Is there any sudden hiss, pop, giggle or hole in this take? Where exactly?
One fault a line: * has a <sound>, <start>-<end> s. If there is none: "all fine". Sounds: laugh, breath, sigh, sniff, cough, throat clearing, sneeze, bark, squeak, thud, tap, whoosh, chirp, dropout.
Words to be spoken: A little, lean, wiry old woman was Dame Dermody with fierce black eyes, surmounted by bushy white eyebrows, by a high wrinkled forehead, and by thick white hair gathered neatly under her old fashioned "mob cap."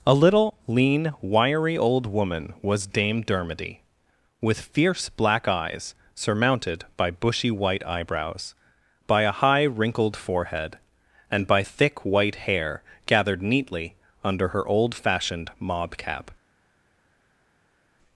all fine